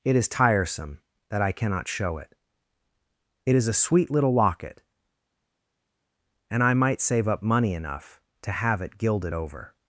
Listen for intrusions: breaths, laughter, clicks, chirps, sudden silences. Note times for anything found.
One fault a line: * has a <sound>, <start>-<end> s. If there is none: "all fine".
all fine